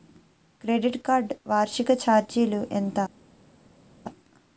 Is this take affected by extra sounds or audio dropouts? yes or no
no